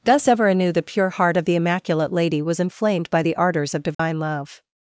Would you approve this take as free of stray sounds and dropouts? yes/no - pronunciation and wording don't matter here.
no